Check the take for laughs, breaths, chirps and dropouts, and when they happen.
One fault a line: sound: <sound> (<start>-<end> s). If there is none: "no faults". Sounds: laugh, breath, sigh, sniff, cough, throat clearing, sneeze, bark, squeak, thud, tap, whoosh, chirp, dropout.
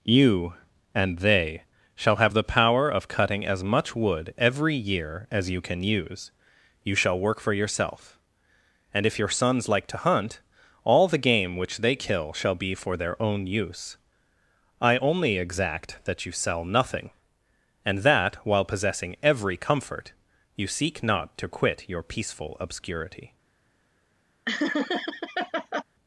sound: laugh (24.5-25.8 s)